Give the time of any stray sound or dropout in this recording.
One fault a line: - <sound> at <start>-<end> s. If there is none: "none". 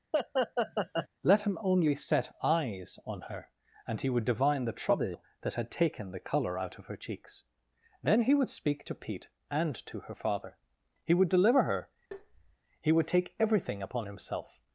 - laugh at 0.1-1.1 s
- tap at 12.1-12.6 s